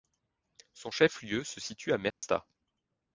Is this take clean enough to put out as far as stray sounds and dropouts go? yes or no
no